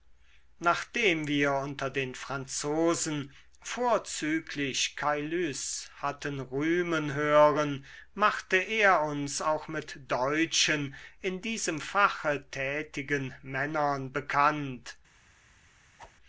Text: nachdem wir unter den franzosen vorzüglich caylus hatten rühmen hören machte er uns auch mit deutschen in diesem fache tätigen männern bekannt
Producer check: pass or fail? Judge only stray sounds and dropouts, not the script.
fail